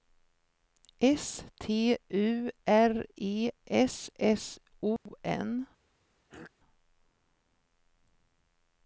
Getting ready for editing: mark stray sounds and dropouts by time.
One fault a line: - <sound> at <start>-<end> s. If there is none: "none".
- dropout at 5.0-5.1 s
- throat clearing at 6.3-6.5 s